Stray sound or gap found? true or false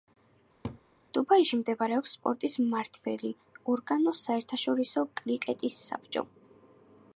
true